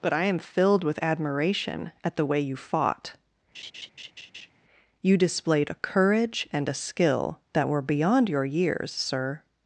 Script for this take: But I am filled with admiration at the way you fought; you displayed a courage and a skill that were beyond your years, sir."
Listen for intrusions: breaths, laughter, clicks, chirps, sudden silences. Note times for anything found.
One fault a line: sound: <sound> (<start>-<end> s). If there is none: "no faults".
sound: laugh (3.5-4.5 s)